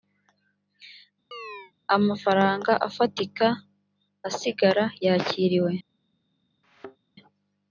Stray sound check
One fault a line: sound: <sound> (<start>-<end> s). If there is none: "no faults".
sound: chirp (1.3-1.7 s)
sound: thud (6.6-7.0 s)